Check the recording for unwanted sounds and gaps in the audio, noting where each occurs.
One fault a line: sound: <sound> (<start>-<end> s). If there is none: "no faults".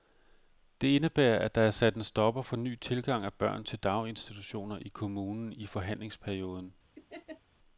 sound: laugh (6.9-7.4 s)